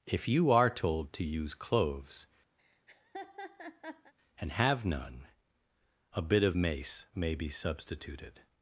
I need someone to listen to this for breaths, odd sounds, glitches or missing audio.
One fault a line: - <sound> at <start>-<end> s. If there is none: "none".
- laugh at 2.6-4.1 s